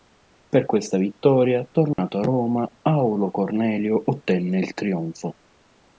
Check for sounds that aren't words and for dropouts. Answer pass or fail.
fail